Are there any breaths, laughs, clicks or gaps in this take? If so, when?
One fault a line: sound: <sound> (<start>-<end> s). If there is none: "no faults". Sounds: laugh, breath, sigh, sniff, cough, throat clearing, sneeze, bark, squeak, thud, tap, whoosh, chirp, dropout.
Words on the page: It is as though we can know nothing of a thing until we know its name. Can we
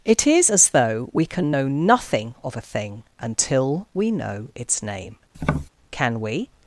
sound: tap (5.3-5.7 s)